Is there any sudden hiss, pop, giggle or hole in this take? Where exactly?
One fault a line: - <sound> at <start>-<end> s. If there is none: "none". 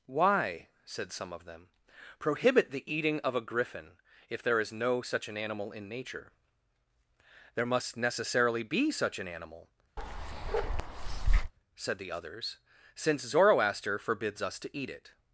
- bark at 10.0-11.5 s